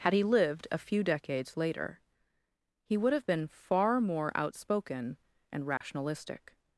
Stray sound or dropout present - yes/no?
yes